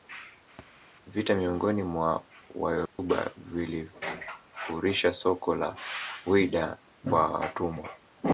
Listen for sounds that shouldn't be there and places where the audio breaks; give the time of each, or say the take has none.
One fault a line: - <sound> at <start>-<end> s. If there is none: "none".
- thud at 0.6-0.7 s
- dropout at 2.9-3.0 s